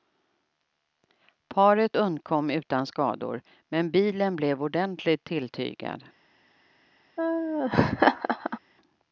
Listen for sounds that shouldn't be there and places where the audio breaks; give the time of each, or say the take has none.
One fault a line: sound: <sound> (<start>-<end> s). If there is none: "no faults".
sound: laugh (7.2-8.6 s)